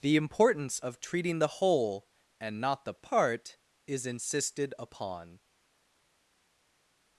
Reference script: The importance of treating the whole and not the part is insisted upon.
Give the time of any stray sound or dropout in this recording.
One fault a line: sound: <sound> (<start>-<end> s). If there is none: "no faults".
no faults